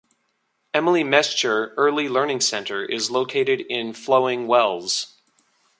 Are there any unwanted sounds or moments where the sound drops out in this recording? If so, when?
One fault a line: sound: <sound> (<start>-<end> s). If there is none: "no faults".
no faults